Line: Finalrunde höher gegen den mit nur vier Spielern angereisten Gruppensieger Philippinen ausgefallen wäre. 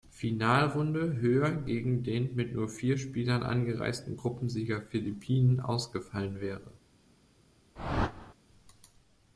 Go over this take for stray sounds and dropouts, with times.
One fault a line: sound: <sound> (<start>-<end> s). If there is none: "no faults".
sound: whoosh (7.8-8.3 s)